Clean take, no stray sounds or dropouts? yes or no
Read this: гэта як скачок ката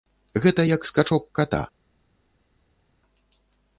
yes